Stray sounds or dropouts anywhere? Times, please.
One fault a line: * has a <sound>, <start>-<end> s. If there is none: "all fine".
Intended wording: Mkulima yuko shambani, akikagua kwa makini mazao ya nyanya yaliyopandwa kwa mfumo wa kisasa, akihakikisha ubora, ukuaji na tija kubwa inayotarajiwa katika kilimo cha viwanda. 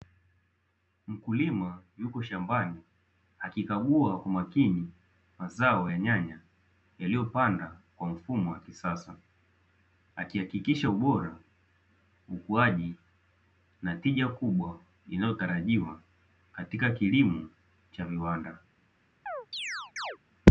* has a chirp, 19.3-20.2 s